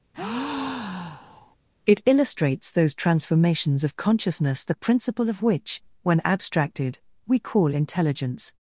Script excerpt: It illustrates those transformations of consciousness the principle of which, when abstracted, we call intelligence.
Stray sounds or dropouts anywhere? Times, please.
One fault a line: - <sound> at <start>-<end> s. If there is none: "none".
- breath at 0.1-1.6 s